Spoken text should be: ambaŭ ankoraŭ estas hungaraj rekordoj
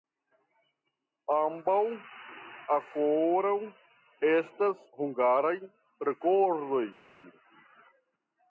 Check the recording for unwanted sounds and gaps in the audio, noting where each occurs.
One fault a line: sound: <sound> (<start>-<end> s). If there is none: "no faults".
no faults